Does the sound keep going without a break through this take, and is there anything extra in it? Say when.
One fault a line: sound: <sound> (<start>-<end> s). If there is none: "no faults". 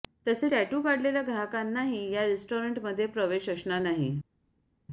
no faults